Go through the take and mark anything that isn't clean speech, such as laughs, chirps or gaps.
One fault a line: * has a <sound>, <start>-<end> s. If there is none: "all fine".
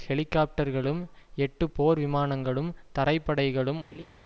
* has a laugh, 3.9-4.1 s